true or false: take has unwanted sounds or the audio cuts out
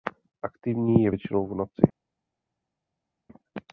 false